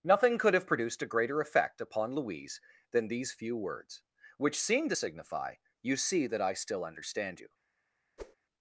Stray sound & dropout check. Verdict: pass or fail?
fail